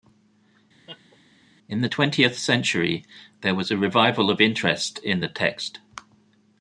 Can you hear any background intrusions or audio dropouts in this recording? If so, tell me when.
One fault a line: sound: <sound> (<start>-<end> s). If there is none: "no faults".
sound: laugh (0.9-1.2 s)